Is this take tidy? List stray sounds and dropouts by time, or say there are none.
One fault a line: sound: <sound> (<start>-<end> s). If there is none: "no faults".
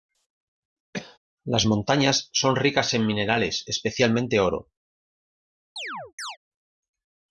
sound: cough (0.9-1.2 s)
sound: chirp (5.8-6.4 s)